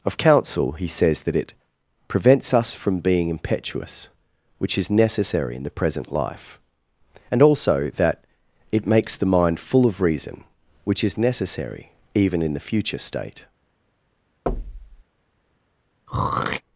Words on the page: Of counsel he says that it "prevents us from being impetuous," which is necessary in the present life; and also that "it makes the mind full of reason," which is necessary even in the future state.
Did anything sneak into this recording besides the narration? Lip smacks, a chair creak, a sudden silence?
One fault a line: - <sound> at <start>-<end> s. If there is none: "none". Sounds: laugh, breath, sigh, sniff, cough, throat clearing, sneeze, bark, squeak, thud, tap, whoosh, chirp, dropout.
- thud at 14.5-15.0 s
- throat clearing at 16.1-16.6 s